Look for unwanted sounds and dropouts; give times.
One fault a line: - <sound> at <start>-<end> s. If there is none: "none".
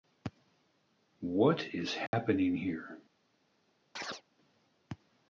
- dropout at 2.1-2.1 s
- chirp at 4.0-4.2 s